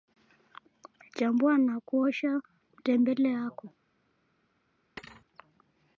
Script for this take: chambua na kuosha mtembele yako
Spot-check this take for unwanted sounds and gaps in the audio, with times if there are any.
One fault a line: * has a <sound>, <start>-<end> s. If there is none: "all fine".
* has a thud, 5.0-5.3 s